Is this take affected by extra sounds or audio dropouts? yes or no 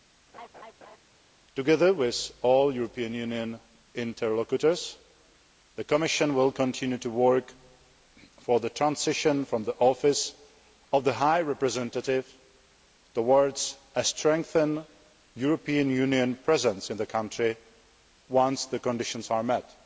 yes